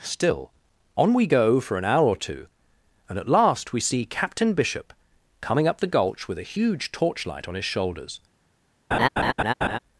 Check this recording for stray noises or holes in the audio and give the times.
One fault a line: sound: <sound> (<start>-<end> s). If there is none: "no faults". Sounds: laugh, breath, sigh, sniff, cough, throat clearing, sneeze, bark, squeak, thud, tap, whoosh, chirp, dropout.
sound: laugh (8.9-9.8 s)